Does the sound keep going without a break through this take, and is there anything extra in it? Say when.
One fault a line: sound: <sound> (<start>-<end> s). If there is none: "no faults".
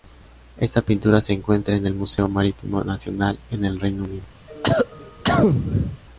sound: cough (4.5-6.0 s)